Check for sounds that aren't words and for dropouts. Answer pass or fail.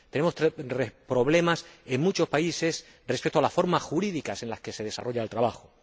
pass